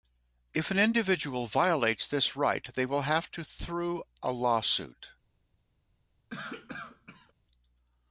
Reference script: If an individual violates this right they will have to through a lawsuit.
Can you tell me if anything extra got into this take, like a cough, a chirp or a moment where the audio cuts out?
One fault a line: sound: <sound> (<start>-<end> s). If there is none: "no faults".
sound: cough (6.3-7.3 s)